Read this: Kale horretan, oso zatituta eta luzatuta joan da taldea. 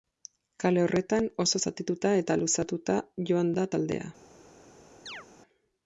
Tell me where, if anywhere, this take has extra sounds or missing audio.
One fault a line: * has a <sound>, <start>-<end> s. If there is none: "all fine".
* has a chirp, 5.1-5.3 s